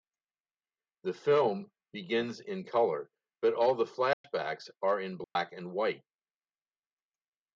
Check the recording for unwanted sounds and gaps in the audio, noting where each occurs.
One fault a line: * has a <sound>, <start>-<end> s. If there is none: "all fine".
* has a dropout, 4.1-4.2 s
* has a dropout, 5.2-5.4 s